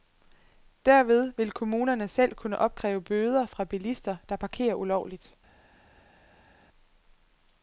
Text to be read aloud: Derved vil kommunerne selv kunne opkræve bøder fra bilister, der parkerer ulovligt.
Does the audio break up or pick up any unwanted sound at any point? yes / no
no